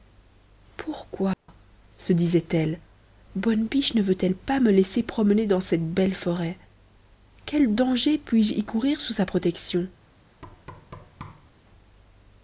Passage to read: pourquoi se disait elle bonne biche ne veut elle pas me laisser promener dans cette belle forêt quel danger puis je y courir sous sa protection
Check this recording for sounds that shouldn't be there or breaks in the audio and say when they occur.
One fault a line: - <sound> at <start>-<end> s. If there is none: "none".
- dropout at 1.3-1.5 s
- thud at 10.4-11.5 s